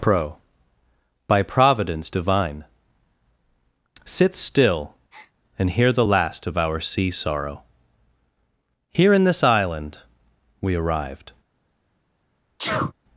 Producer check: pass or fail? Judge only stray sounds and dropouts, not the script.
fail